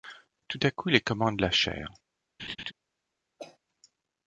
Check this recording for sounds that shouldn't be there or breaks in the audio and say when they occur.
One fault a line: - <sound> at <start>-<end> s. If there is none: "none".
- laugh at 2.4-2.7 s
- cough at 3.4-3.6 s